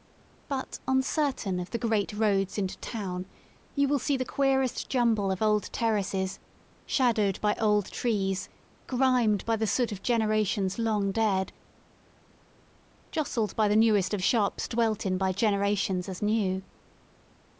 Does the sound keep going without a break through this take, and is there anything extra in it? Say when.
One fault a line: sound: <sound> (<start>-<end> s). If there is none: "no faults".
no faults